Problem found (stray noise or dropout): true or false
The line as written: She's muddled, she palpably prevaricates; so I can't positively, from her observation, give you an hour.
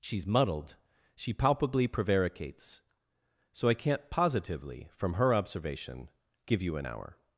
false